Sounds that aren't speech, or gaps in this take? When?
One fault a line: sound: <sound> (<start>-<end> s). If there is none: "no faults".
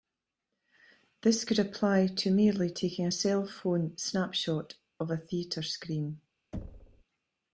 sound: thud (6.5-7.0 s)